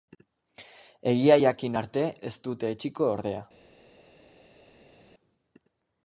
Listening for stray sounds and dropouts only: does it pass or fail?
pass